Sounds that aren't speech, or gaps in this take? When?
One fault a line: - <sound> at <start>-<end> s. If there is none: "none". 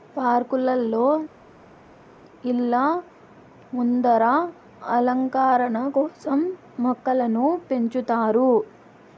none